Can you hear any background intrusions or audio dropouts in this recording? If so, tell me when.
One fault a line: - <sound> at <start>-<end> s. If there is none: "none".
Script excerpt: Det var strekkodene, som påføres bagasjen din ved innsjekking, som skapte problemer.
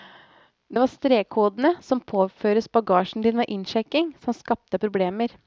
none